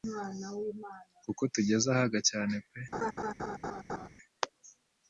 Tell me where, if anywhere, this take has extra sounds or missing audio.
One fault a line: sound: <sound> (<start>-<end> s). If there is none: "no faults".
sound: laugh (2.9-4.1 s)